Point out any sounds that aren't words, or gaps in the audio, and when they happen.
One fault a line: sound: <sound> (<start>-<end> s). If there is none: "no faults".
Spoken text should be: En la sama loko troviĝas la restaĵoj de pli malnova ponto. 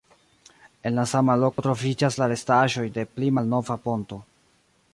sound: dropout (1.5-1.6 s)